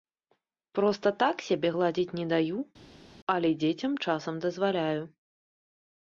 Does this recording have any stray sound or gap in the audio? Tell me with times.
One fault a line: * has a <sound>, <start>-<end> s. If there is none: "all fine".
all fine